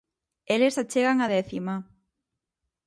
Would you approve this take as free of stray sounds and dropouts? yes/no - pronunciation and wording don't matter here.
yes